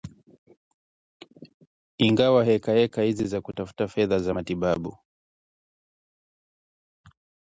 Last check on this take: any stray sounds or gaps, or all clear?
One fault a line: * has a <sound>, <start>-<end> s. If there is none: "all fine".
all fine